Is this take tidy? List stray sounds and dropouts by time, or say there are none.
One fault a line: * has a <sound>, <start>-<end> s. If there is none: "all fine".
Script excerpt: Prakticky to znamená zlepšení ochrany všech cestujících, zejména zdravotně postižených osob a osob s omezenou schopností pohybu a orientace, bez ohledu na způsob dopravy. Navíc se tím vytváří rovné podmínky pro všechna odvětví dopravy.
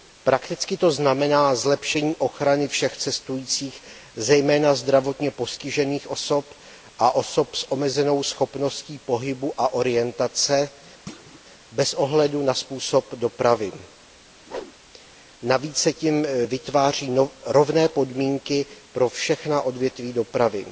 * has a thud, 11.1-11.4 s
* has a whoosh, 14.5-14.7 s